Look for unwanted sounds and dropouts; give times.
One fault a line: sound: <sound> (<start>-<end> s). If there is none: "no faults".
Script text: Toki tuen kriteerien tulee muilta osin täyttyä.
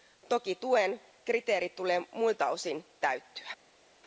no faults